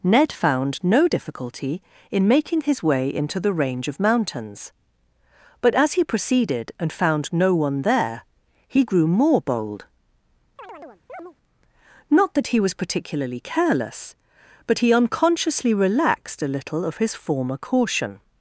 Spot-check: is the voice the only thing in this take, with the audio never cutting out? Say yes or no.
no